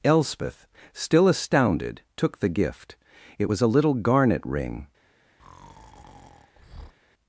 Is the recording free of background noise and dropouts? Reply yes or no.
no